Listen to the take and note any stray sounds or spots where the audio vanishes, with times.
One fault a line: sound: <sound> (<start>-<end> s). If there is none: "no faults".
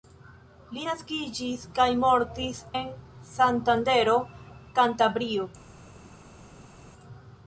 no faults